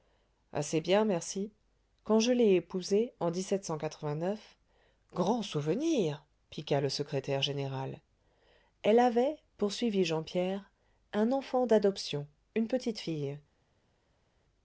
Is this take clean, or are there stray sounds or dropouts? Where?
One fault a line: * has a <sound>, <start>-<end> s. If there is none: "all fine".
all fine